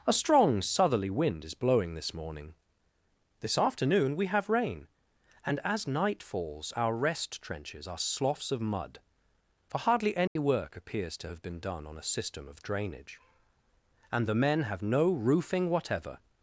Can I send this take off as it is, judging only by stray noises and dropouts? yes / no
no